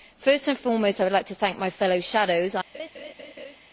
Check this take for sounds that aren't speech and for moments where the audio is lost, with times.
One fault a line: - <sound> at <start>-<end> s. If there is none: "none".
- laugh at 2.7-3.6 s